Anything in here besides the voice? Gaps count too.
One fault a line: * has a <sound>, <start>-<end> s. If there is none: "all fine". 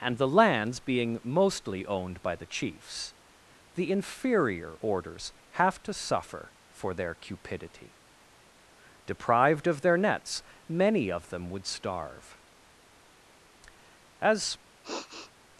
* has a sniff, 14.8-15.3 s